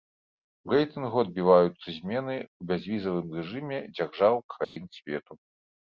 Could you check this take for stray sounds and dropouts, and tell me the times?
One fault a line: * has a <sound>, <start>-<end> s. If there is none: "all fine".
* has a dropout, 4.6-4.8 s